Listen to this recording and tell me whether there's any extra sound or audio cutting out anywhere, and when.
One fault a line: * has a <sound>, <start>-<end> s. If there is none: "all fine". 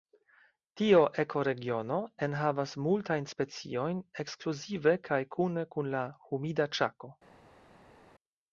all fine